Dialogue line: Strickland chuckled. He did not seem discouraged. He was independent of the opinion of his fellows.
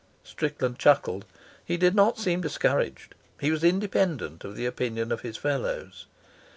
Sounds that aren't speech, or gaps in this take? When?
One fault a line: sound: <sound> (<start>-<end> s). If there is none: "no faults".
no faults